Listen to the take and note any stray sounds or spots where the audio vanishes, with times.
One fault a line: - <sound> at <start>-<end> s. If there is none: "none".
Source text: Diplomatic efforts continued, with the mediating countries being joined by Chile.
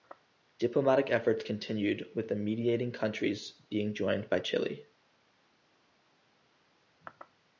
none